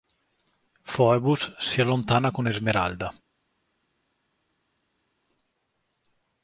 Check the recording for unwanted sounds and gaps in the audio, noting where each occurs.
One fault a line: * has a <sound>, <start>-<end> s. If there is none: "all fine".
all fine